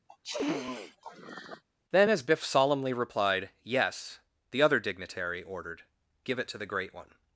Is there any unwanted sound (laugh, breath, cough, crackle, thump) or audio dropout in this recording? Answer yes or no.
yes